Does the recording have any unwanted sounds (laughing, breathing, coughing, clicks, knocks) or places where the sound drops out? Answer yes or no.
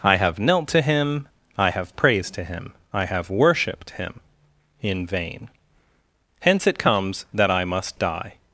no